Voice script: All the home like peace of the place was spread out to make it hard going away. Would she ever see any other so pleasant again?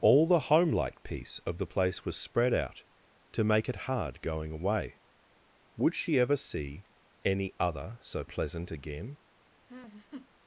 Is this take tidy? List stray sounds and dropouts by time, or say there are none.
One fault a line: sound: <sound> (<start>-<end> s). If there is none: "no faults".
sound: laugh (9.7-10.3 s)